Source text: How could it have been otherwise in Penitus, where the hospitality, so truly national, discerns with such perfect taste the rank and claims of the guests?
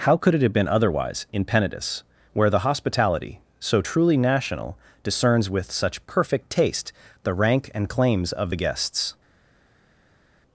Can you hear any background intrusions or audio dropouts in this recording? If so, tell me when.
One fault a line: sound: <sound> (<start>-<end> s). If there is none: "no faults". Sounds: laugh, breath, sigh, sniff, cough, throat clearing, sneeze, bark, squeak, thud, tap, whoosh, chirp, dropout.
no faults